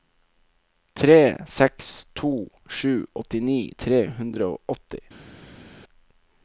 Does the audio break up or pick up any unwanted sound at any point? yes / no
no